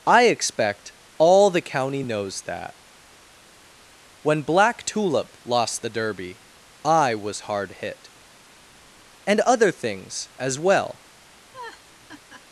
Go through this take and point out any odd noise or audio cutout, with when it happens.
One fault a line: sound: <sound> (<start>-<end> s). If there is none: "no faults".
sound: laugh (11.5-12.4 s)